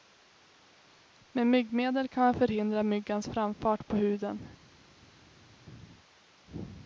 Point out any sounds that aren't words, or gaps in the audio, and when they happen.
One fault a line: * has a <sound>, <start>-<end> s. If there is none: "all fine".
all fine